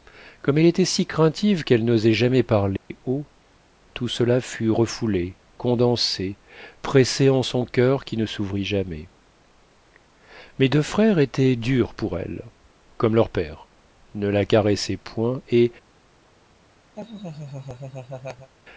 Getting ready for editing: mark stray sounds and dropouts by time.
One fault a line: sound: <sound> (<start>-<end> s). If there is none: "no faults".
sound: dropout (2.8-2.9 s)
sound: laugh (16.9-18.5 s)